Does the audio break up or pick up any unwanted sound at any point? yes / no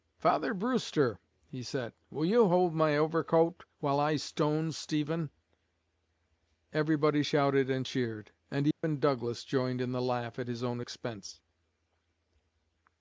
yes